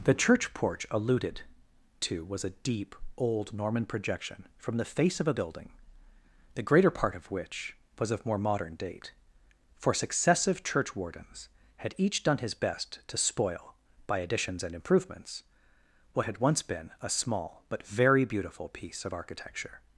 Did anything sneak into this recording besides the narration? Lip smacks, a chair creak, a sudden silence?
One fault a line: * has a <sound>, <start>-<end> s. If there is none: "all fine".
all fine